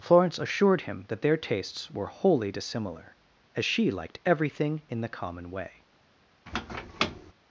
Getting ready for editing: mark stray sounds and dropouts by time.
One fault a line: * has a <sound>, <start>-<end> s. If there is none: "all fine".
* has a squeak, 6.5-7.3 s